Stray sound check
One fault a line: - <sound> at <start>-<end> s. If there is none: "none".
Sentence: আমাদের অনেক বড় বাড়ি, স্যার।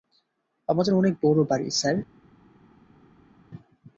none